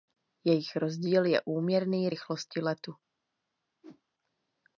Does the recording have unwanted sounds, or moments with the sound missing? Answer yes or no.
yes